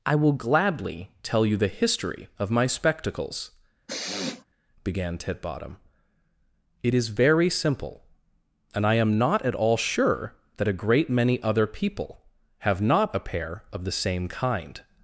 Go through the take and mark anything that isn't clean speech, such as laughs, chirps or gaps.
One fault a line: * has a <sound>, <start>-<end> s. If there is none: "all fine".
* has a sniff, 3.9-4.4 s